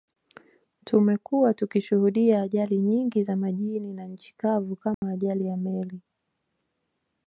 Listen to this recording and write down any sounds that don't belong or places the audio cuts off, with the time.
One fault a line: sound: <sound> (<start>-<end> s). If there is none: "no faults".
sound: dropout (4.9-5.0 s)